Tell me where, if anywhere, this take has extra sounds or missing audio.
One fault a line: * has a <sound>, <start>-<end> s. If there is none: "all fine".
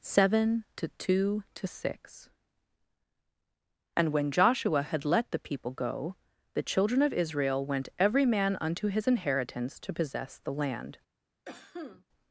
* has a cough, 11.4-12.0 s